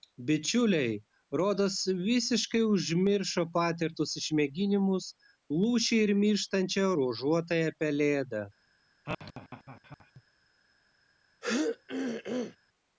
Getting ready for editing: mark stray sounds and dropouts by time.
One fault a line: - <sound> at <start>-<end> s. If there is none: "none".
- laugh at 9.1-10.2 s
- throat clearing at 11.4-12.6 s